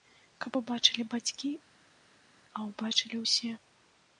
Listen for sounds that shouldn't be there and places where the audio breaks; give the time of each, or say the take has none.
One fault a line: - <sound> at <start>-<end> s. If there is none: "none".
none